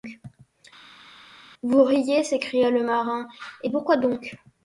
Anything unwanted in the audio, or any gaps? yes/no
no